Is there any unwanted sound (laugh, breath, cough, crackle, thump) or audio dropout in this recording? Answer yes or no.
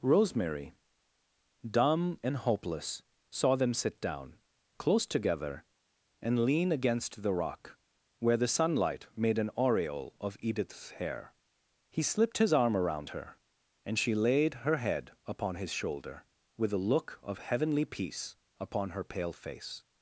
no